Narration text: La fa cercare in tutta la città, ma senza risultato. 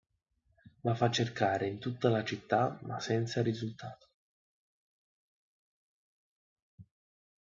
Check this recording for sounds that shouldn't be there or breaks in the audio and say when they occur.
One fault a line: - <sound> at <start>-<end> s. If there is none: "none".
none